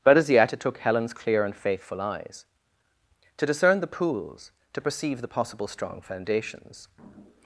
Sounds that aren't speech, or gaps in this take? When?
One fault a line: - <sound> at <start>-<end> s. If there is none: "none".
none